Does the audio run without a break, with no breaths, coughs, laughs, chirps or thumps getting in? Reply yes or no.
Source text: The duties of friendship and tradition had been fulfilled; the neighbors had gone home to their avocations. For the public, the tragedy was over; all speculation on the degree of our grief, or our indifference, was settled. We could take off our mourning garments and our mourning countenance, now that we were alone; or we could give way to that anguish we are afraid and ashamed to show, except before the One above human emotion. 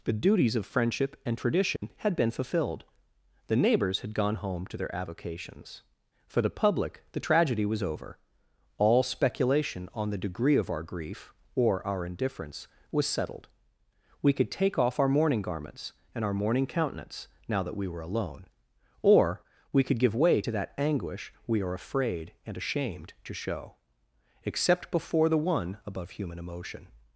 no